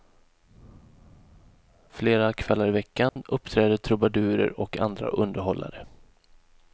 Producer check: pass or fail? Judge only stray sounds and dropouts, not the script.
fail